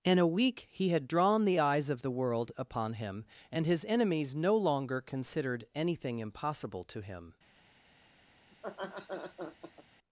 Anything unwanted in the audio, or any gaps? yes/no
yes